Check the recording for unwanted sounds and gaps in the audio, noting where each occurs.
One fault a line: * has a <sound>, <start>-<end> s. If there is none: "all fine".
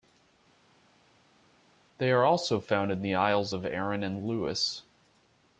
all fine